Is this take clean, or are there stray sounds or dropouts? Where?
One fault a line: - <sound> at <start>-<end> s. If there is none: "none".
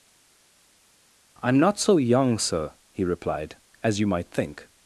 none